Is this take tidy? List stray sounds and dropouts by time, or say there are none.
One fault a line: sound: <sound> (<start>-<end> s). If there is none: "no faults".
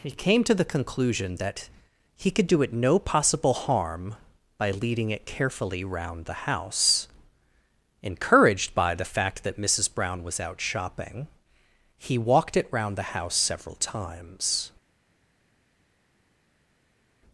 no faults